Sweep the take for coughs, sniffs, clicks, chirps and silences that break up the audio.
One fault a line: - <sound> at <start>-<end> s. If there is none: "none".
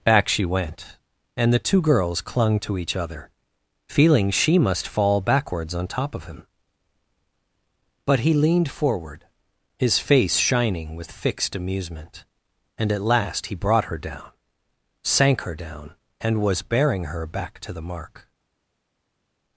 none